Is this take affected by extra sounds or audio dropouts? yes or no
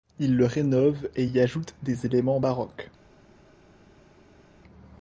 no